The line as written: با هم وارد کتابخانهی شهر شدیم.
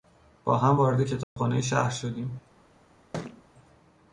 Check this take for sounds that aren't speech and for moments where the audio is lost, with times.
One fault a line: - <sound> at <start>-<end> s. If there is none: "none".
- dropout at 1.2-1.4 s
- thud at 3.1-3.4 s